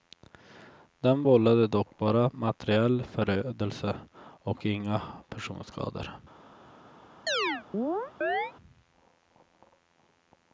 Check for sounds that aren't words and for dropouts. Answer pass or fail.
fail